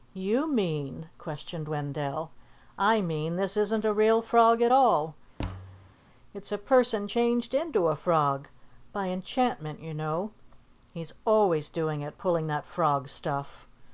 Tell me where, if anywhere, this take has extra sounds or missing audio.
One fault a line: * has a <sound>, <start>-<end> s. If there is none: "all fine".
* has a thud, 5.4-5.9 s